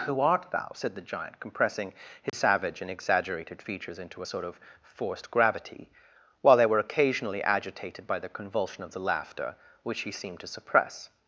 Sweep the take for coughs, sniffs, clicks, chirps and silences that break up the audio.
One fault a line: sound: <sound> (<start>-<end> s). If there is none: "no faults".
sound: dropout (2.3-2.3 s)